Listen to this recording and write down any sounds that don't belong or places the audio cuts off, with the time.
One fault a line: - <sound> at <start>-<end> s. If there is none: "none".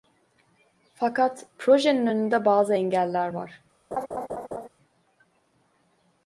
- laugh at 3.9-4.7 s